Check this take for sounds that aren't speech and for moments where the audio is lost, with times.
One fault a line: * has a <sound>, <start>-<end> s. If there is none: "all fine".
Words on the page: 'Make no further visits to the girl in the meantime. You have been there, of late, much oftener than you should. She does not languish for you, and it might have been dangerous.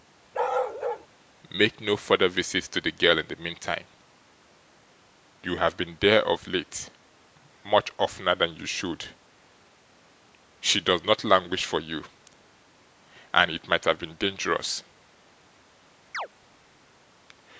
* has a bark, 0.3-1.1 s
* has a chirp, 16.1-16.3 s